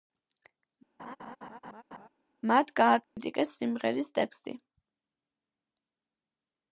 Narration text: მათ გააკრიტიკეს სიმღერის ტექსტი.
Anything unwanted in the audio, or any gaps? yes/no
yes